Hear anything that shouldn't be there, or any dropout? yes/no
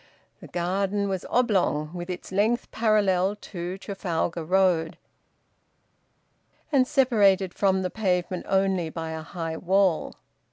no